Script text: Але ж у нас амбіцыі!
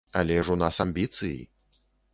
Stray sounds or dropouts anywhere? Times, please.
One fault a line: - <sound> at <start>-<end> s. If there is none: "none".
none